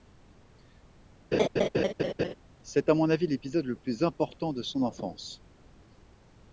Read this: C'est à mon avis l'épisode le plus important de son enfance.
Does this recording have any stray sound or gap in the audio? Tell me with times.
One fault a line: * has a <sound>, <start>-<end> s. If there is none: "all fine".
* has a laugh, 1.3-2.3 s